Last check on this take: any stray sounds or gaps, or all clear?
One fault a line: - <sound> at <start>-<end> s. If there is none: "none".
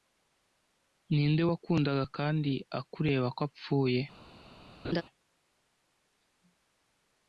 - laugh at 4.8-5.0 s